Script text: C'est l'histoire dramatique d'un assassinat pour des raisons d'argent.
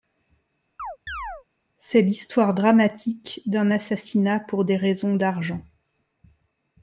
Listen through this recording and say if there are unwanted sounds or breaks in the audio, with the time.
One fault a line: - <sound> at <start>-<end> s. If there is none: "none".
- chirp at 0.8-1.4 s